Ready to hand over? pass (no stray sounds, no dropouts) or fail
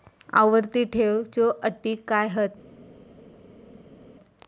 pass